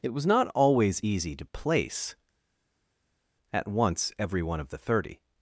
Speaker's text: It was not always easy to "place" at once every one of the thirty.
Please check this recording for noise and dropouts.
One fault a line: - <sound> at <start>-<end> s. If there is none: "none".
none